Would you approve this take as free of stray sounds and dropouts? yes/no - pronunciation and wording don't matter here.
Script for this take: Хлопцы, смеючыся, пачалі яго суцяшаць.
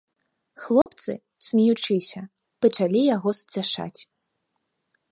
no